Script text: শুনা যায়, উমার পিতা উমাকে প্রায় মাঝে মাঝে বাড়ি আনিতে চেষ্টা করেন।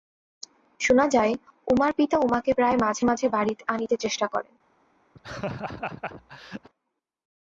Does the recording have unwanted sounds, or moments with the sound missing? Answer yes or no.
yes